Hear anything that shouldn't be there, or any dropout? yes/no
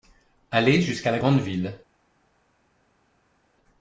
no